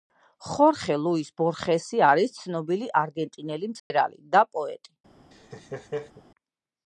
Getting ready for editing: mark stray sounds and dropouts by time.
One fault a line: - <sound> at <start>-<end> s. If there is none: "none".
- dropout at 3.8-3.9 s
- laugh at 5.3-6.2 s